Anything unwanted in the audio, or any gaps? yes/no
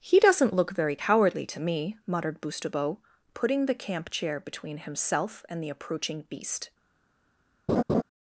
yes